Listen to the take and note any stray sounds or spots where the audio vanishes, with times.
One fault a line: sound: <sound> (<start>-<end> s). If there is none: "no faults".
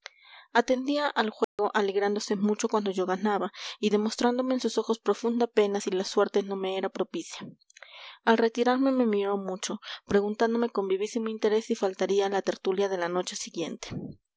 sound: dropout (1.4-1.6 s)